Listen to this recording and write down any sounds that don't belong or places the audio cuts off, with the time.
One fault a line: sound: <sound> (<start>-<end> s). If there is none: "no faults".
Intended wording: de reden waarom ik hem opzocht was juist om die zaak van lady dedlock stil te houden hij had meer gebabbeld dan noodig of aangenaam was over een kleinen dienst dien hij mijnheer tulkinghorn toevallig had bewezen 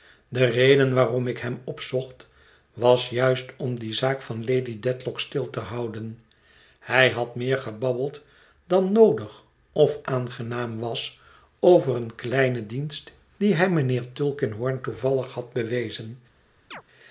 sound: chirp (16.7-16.8 s)